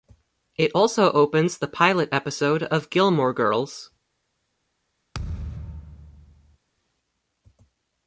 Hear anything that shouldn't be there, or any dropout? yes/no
yes